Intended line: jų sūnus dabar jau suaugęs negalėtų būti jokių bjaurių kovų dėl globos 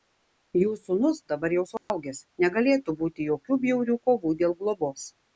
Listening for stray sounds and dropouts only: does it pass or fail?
fail